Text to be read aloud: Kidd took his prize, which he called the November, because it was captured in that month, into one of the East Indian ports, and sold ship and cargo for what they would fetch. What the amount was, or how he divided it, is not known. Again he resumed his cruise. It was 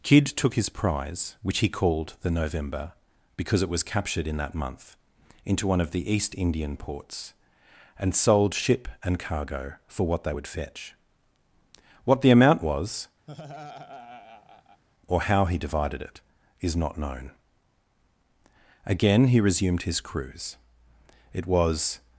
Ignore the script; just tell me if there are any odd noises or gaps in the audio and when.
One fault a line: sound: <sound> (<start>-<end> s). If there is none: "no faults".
sound: laugh (13.3-14.8 s)